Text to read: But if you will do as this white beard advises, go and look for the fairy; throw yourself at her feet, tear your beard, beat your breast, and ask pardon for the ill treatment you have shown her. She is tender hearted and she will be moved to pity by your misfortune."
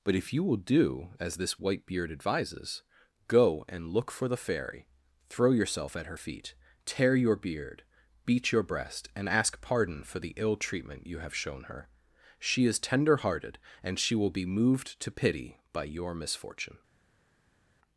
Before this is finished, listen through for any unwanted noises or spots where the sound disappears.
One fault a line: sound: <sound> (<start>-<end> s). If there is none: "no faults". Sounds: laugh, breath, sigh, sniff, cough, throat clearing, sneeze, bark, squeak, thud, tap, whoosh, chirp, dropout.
no faults